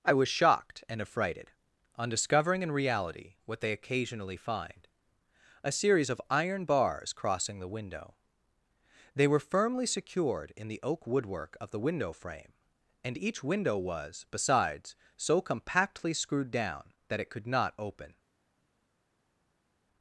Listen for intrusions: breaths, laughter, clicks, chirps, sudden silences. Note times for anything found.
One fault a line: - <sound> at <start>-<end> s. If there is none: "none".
none